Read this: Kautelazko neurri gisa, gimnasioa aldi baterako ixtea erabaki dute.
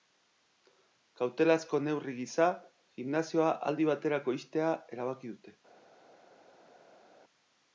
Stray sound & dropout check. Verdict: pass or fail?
pass